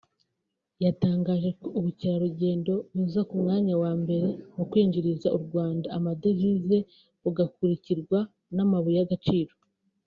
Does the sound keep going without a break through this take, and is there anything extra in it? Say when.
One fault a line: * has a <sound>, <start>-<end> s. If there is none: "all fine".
all fine